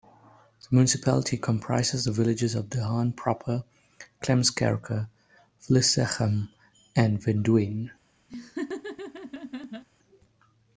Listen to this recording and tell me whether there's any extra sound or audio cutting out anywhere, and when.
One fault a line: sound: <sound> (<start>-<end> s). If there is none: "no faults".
sound: laugh (8.3-9.8 s)